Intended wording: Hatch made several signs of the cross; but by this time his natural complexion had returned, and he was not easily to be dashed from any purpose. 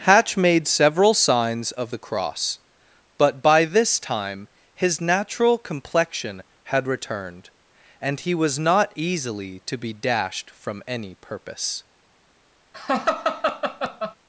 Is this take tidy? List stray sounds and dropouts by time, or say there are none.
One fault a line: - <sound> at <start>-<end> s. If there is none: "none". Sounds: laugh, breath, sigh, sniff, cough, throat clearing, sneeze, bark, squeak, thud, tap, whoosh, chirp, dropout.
- laugh at 12.7-14.2 s